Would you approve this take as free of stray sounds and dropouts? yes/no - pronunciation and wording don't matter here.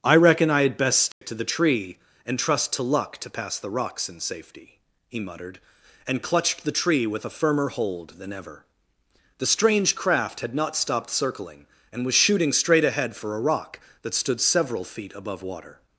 no